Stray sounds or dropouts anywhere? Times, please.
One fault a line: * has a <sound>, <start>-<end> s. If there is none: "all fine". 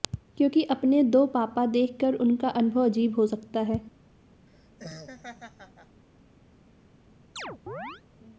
* has a laugh, 4.5-6.0 s
* has a chirp, 7.4-8.0 s